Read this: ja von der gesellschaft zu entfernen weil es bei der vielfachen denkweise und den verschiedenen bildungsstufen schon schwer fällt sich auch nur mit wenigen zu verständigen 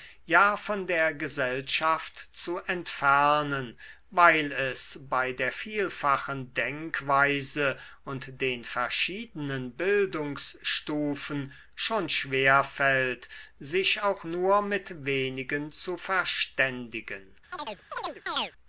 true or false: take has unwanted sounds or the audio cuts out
true